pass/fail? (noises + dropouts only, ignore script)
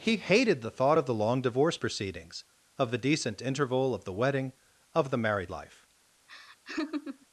fail